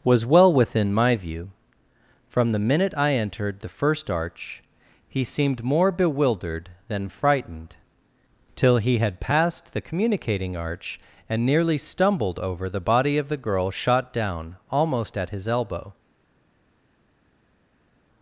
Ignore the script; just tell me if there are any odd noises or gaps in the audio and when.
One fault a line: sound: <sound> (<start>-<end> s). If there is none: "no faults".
no faults